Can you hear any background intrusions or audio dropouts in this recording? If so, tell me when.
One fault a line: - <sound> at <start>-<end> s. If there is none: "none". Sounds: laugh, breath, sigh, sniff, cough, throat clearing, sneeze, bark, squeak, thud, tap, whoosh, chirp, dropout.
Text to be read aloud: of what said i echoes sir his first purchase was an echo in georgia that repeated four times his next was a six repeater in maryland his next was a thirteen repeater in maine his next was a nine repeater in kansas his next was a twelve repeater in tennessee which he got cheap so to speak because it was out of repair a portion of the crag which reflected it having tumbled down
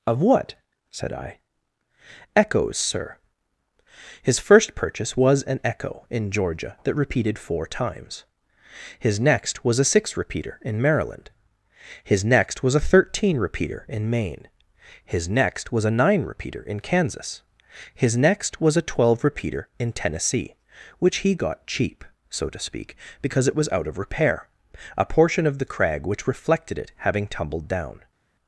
none